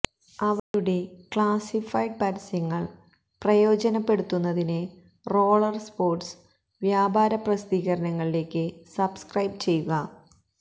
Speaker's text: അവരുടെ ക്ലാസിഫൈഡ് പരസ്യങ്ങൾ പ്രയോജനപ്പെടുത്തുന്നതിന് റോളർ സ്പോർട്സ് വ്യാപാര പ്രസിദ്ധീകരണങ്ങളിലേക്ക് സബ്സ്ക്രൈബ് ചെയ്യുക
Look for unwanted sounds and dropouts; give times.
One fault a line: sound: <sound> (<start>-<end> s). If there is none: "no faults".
sound: dropout (0.6-0.7 s)